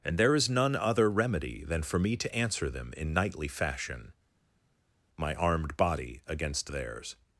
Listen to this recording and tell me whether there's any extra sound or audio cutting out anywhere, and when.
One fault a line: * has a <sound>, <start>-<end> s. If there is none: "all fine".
all fine